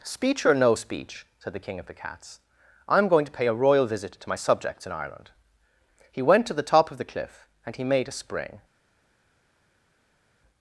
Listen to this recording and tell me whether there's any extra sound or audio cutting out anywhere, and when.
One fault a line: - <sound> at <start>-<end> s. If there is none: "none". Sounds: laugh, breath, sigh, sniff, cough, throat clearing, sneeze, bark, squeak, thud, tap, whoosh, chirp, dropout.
none